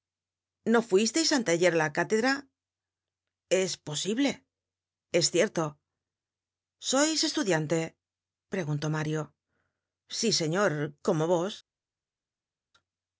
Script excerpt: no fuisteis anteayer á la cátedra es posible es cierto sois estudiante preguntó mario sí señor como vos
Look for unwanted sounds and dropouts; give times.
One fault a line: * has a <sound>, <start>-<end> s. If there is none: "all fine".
all fine